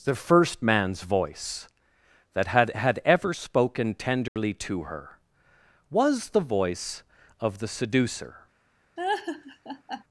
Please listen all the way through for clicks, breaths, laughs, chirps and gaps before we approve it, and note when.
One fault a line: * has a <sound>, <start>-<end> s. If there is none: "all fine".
* has a dropout, 4.3-4.4 s
* has a laugh, 9.0-10.0 s